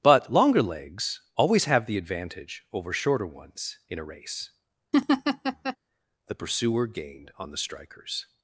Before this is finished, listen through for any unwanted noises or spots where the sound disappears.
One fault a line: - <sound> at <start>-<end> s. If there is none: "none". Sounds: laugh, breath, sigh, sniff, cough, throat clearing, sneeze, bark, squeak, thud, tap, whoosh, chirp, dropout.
- laugh at 4.9-5.8 s